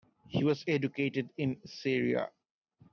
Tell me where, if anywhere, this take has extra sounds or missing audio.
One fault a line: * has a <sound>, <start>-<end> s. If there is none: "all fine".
all fine